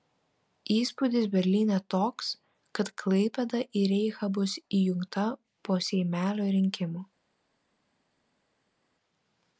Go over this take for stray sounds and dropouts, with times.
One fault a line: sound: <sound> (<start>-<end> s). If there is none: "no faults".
no faults